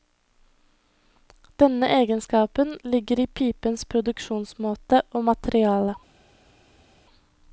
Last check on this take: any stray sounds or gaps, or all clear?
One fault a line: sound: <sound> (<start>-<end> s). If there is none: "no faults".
no faults